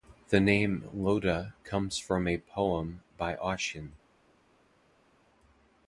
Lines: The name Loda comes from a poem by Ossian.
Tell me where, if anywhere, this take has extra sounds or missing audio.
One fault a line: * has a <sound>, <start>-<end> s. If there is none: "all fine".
all fine